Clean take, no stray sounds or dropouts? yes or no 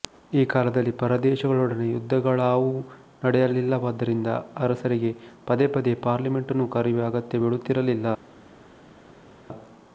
yes